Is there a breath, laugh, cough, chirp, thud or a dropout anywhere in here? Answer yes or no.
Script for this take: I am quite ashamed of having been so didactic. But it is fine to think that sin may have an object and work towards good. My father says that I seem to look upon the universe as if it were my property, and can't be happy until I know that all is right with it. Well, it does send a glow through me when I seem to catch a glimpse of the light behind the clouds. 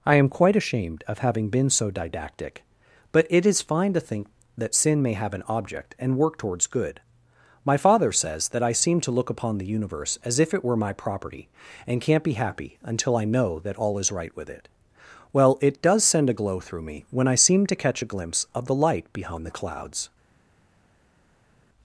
no